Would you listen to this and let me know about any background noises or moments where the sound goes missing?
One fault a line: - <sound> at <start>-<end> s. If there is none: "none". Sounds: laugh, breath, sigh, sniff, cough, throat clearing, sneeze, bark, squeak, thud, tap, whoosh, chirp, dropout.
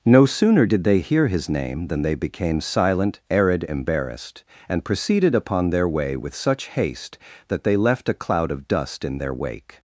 none